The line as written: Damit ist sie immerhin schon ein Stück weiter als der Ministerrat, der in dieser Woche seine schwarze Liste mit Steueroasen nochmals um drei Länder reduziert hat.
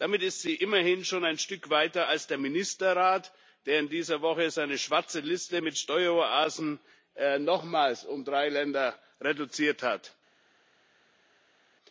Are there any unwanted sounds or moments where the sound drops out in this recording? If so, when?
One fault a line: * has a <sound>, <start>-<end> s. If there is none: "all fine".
all fine